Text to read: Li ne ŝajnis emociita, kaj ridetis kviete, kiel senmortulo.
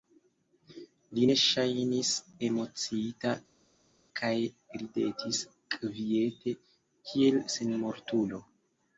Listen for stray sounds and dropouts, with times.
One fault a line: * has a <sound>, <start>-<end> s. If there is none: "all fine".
all fine